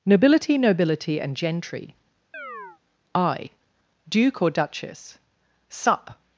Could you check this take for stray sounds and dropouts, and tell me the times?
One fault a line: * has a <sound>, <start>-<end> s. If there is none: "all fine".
* has a chirp, 2.3-2.8 s